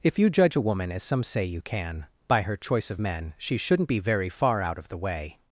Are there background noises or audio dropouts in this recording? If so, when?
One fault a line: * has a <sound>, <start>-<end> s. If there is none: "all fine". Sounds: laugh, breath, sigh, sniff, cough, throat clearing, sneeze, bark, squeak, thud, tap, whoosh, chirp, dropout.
all fine